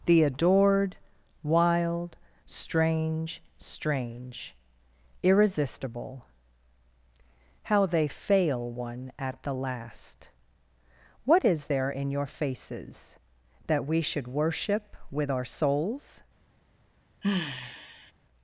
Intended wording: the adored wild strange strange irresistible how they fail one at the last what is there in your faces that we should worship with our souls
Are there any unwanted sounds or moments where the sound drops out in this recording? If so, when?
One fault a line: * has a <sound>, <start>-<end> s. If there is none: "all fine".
* has a sigh, 17.2-18.1 s